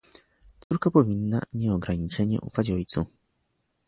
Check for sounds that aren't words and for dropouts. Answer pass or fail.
fail